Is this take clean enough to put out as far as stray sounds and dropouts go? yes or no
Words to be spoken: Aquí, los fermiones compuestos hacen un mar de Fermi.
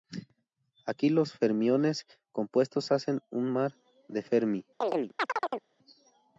no